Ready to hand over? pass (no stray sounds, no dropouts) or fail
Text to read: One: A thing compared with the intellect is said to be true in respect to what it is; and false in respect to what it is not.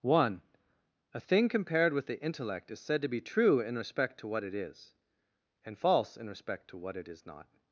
pass